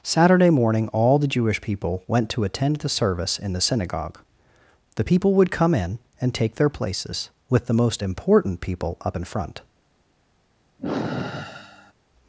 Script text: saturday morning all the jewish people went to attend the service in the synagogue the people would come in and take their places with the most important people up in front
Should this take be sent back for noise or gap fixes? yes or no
yes